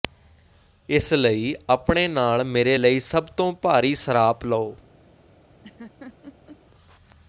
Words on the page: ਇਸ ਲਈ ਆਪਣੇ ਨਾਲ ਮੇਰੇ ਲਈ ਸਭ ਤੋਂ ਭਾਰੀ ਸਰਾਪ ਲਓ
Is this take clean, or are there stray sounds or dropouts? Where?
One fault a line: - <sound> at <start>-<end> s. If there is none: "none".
- laugh at 5.6-6.6 s